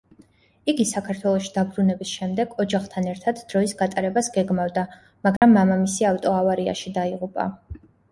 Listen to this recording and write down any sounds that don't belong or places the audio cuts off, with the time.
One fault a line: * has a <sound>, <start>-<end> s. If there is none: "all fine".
* has a dropout, 5.4-5.4 s